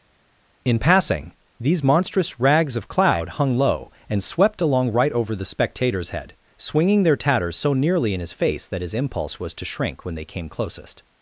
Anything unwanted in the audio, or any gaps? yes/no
no